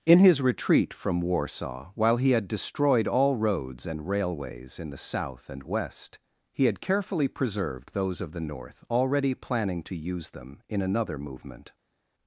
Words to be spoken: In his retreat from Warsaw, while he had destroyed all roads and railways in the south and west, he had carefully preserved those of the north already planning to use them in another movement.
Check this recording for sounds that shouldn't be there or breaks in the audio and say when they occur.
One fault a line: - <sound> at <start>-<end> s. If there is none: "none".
none